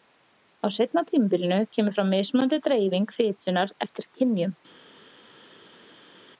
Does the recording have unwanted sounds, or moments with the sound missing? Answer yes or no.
no